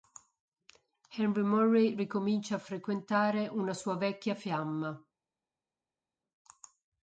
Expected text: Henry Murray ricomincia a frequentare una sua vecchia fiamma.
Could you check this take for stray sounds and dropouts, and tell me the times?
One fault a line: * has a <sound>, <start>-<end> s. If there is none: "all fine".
all fine